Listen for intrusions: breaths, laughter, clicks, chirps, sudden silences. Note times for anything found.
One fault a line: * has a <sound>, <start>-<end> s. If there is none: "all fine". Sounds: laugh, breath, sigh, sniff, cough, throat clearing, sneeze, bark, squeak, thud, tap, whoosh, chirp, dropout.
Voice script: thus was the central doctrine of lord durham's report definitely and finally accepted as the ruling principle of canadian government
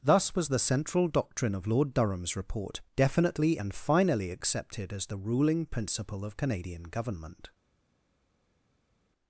all fine